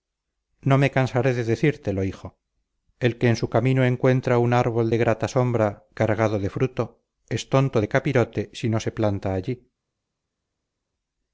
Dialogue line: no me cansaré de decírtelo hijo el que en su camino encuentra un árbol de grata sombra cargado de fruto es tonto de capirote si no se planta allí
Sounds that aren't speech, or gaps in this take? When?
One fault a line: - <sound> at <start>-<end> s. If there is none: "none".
none